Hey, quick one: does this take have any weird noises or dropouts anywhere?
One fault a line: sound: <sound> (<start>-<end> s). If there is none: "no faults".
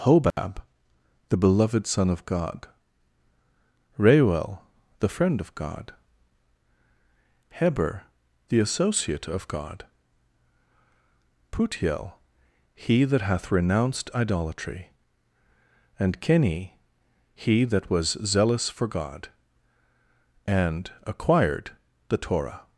sound: dropout (0.3-0.4 s)